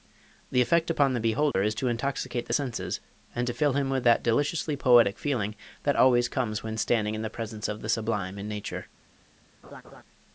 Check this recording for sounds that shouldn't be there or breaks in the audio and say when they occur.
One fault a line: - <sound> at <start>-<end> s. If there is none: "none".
- dropout at 1.5-1.5 s
- laugh at 9.6-10.0 s